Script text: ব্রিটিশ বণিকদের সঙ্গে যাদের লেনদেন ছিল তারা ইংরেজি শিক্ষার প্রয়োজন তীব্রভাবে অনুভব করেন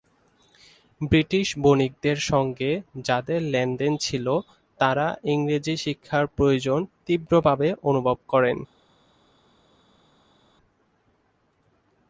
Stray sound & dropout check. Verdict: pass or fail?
pass